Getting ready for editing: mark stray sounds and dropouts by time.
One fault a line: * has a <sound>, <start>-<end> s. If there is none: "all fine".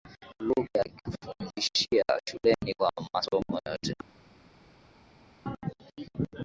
all fine